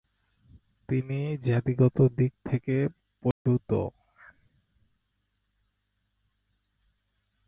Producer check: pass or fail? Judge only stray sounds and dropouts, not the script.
fail